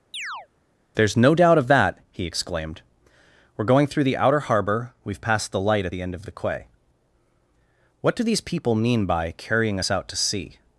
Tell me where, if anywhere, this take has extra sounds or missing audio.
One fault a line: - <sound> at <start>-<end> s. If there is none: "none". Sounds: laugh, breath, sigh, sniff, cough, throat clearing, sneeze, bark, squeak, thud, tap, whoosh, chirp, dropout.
- chirp at 0.1-0.5 s